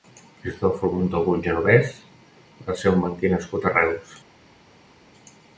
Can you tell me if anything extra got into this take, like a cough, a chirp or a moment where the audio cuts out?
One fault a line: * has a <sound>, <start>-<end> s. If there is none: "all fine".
all fine